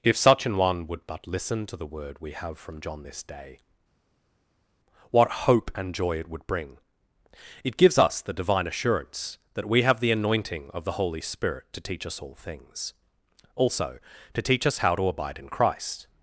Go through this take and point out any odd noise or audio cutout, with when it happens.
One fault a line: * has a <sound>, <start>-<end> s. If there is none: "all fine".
all fine